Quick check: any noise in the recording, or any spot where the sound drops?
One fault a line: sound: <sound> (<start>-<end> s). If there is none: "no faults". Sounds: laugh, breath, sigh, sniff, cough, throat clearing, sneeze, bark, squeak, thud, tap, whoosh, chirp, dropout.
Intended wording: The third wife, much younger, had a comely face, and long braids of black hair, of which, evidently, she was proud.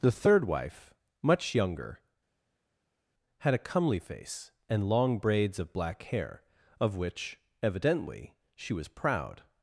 no faults